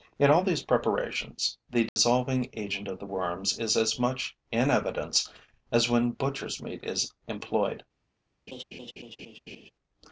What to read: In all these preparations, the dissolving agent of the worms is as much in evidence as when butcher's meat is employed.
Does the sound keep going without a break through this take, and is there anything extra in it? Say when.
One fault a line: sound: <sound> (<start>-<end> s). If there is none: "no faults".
sound: dropout (1.9-2.0 s)
sound: laugh (8.5-9.7 s)